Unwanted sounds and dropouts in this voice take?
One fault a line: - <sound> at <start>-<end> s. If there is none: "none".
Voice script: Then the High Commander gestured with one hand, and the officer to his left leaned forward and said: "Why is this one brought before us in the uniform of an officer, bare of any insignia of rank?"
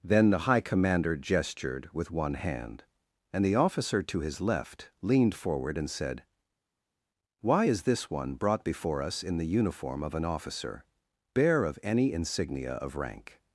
none